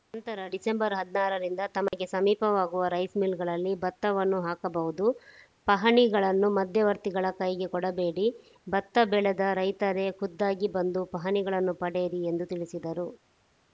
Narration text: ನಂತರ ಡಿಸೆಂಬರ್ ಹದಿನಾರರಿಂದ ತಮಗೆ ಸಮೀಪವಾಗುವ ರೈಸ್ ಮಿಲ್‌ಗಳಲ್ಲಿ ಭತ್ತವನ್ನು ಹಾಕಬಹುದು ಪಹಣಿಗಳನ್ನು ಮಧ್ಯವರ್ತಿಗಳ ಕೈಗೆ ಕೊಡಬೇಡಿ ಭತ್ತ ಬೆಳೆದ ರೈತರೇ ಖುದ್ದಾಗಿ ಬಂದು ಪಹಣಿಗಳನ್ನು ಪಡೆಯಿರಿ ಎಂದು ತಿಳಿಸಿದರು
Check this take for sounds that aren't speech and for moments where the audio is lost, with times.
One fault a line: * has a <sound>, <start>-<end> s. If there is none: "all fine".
* has a dropout, 1.9-1.9 s